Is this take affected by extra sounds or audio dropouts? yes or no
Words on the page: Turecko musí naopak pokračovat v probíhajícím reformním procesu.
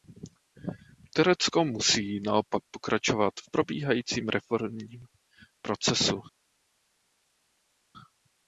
no